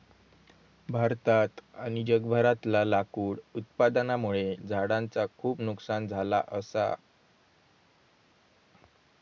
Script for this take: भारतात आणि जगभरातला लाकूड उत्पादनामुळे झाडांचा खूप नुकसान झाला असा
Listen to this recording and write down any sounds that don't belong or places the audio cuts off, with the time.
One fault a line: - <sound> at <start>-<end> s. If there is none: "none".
none